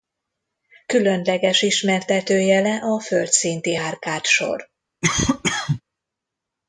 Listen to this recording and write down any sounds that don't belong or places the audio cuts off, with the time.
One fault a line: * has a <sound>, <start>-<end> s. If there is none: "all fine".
* has a cough, 5.0-5.8 s